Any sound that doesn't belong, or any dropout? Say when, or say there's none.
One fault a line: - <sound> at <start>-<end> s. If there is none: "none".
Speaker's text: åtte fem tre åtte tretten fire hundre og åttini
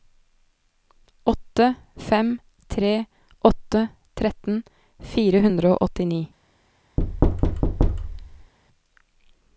- thud at 7.0-8.5 s